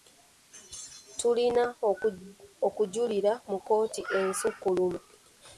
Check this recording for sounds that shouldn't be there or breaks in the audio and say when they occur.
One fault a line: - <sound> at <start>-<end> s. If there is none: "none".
none